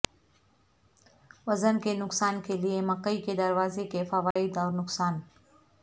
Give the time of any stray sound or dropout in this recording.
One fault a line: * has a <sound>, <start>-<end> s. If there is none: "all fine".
* has a dropout, 4.3-4.4 s